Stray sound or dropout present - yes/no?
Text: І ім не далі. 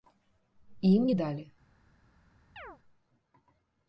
yes